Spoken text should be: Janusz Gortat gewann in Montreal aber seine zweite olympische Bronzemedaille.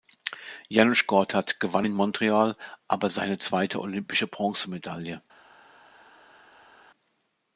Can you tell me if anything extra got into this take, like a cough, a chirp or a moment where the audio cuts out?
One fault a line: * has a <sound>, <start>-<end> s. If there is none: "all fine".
all fine